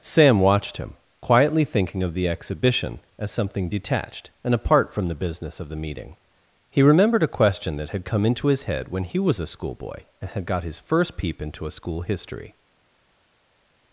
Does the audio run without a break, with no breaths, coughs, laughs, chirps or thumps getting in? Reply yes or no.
yes